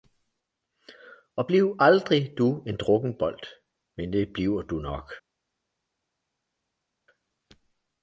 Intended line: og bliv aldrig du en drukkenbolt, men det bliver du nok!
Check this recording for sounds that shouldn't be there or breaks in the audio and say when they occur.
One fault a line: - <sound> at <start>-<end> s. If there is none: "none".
none